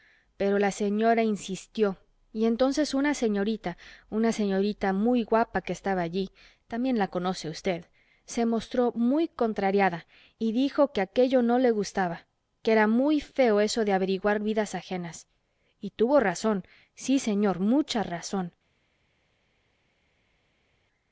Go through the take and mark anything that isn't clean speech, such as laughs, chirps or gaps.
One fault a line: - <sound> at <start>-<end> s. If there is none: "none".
none